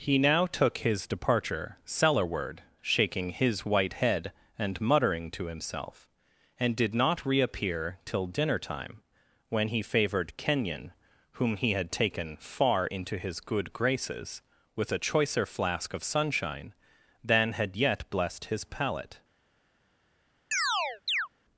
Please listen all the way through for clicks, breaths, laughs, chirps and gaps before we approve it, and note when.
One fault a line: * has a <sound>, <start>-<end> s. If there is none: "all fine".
* has a chirp, 20.5-21.3 s